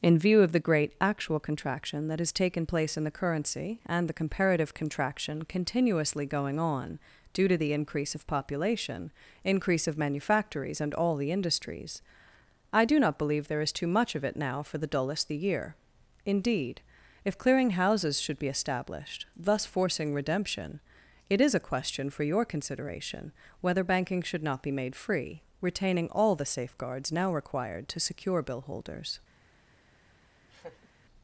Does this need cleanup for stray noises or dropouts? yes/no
yes